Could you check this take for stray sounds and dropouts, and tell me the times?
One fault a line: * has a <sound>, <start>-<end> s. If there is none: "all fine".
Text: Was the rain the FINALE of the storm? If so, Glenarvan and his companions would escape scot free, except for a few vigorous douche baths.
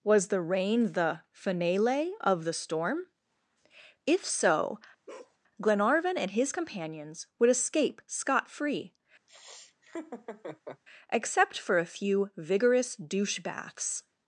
* has a bark, 5.1-5.4 s
* has a laugh, 9.3-10.8 s